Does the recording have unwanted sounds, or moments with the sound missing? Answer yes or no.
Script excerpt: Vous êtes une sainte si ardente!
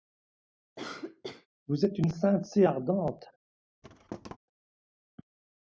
yes